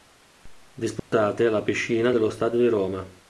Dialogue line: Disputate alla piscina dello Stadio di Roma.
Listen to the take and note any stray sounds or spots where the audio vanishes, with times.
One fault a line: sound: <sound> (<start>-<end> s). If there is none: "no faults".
sound: dropout (1.0-1.1 s)